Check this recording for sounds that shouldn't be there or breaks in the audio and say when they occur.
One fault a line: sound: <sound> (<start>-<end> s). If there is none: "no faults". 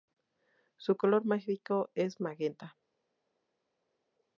no faults